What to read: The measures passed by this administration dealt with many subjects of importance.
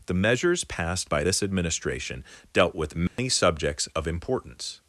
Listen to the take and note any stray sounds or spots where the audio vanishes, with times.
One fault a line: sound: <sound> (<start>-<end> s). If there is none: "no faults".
sound: dropout (3.1-3.2 s)